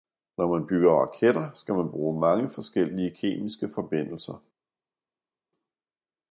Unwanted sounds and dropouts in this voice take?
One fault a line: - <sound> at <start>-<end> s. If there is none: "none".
none